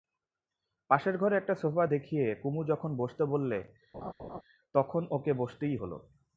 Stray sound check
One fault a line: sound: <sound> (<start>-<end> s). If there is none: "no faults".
sound: laugh (3.9-4.4 s)